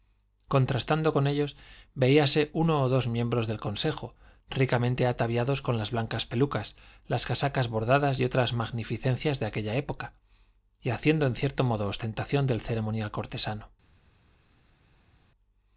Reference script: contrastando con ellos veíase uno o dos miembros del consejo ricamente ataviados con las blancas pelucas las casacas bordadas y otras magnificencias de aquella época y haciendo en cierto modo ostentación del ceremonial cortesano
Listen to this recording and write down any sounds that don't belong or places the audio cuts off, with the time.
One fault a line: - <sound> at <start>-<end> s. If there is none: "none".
none